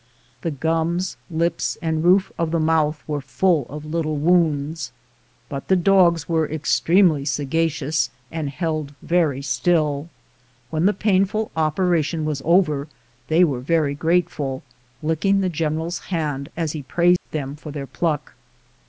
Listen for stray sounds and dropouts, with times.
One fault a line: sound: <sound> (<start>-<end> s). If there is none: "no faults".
sound: dropout (17.2-17.3 s)